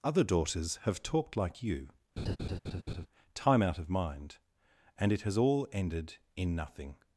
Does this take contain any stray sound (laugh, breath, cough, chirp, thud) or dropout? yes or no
yes